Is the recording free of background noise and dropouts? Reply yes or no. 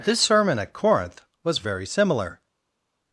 yes